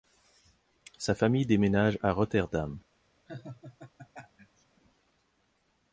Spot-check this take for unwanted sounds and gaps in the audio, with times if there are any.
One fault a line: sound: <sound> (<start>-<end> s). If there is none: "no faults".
sound: laugh (3.3-4.7 s)